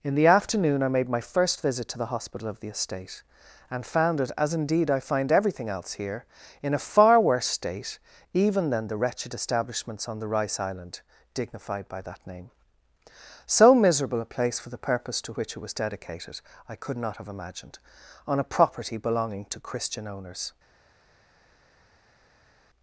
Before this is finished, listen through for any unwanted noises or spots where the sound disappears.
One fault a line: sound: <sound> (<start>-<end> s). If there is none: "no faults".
no faults